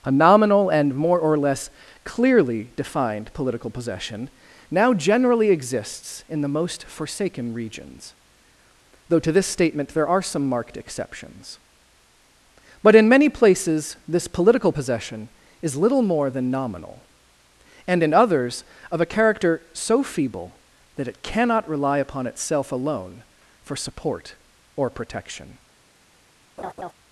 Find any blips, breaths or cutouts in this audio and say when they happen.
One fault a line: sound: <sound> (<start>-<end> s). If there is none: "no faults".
sound: laugh (26.6-26.9 s)